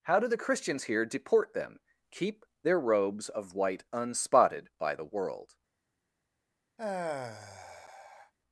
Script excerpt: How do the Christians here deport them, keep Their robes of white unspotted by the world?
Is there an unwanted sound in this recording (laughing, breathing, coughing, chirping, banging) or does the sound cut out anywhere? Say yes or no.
yes